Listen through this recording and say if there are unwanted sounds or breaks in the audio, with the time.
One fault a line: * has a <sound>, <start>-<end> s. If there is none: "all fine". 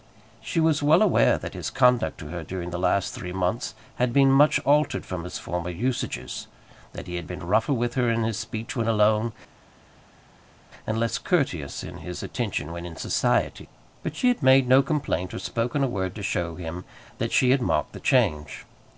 all fine